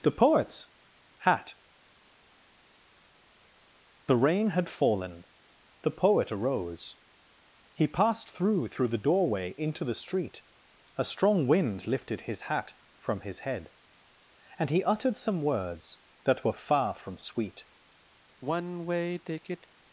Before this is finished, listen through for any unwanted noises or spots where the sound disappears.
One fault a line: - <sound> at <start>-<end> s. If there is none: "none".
- sigh at 18.4-19.7 s